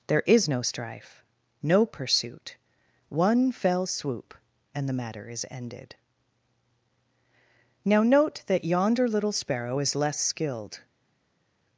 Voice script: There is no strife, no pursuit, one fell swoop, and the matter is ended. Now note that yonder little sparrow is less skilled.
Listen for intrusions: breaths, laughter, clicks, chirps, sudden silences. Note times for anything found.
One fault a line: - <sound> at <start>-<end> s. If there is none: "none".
none